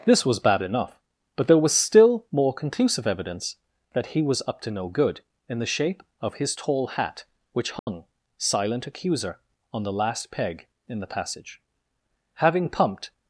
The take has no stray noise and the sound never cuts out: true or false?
false